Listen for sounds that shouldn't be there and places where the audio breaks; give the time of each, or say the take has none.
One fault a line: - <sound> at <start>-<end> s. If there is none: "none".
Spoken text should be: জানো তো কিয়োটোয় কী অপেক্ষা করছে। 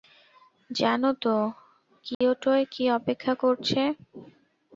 - dropout at 2.1-2.2 s